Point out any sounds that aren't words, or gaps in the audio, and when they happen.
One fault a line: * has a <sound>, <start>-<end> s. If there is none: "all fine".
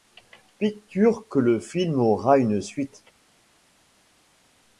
all fine